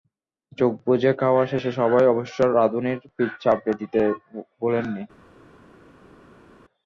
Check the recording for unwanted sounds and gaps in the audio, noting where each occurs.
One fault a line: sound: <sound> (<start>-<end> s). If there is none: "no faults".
no faults